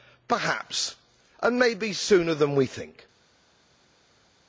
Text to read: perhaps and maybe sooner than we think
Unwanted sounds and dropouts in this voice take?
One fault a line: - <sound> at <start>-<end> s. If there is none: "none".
none